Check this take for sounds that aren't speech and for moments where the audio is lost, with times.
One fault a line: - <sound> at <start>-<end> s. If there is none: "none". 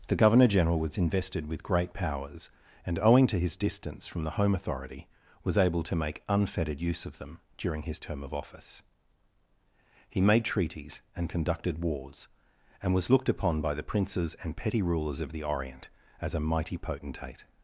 none